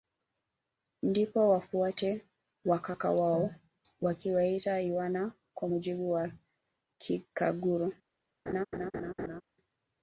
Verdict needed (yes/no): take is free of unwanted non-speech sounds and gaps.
no